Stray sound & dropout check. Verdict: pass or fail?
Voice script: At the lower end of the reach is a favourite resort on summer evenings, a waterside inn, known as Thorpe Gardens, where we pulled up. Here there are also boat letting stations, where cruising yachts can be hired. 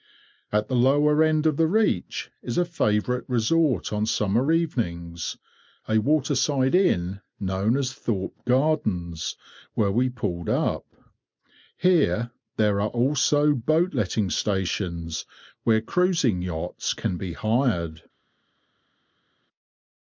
pass